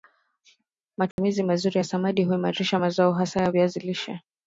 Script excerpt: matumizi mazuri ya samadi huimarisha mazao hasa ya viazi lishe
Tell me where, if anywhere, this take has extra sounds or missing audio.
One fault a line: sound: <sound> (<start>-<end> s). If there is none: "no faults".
sound: dropout (1.1-1.2 s)